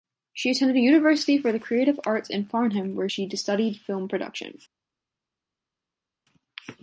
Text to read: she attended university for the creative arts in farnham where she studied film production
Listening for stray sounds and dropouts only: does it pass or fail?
pass